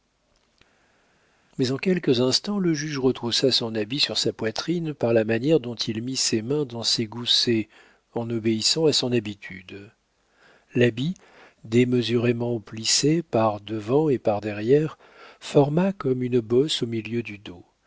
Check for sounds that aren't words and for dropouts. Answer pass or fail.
pass